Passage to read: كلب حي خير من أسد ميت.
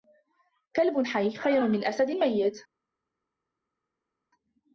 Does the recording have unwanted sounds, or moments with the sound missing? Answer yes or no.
no